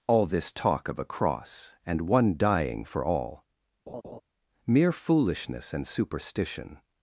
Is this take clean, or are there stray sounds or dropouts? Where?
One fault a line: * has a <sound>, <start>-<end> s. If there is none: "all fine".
* has a laugh, 3.9-4.2 s